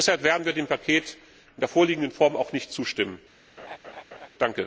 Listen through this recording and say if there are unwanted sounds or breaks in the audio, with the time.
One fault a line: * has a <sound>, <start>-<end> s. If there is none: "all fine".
* has a laugh, 3.6-4.3 s